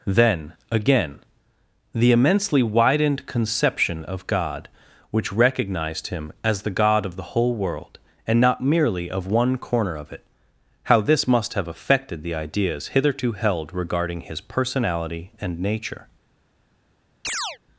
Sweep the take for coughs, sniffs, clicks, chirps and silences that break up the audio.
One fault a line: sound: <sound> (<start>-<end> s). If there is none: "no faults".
sound: chirp (17.2-17.6 s)